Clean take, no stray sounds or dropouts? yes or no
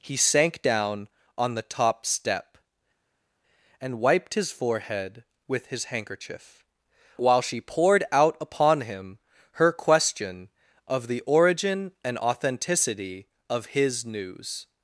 yes